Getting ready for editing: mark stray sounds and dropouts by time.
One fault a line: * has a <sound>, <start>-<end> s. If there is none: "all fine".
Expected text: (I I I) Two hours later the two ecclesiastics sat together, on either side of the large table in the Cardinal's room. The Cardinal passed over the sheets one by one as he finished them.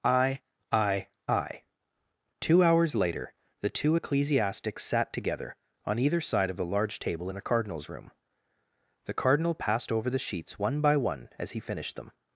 all fine